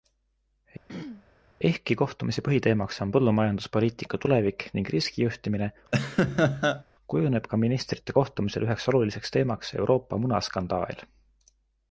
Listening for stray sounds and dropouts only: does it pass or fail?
fail